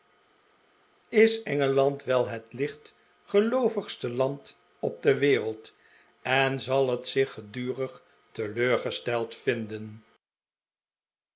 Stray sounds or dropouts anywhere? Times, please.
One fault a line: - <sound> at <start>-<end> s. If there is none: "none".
none